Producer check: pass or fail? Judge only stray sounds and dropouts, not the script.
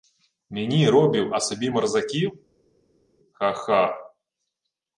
pass